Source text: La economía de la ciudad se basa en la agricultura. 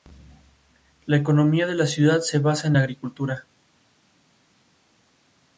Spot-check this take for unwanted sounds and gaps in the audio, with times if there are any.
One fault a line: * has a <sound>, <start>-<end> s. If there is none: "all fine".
all fine